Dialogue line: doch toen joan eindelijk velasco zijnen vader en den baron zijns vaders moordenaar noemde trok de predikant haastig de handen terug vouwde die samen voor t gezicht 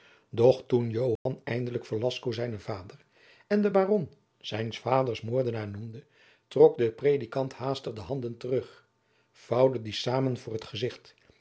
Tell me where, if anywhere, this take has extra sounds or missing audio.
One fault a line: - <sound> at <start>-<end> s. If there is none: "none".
- dropout at 1.2-1.3 s